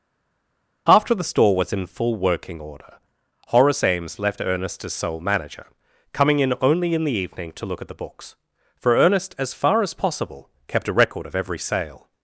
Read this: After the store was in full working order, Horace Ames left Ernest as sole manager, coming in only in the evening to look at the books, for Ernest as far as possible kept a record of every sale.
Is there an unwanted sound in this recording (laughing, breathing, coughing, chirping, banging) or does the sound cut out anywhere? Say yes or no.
no